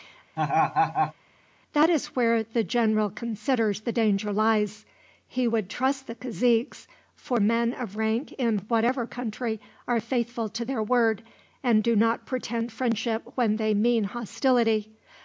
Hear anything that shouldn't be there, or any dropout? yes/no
yes